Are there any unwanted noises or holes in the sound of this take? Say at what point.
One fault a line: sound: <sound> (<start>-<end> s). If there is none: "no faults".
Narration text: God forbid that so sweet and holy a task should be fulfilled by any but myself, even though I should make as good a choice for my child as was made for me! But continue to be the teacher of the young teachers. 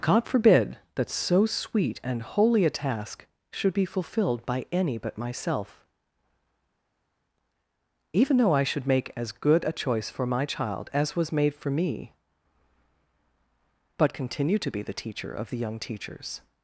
no faults